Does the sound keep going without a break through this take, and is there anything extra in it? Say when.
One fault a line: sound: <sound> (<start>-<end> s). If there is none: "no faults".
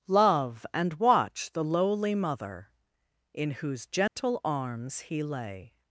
sound: dropout (4.1-4.2 s)